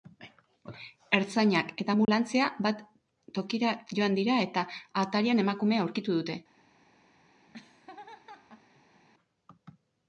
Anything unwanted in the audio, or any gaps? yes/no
yes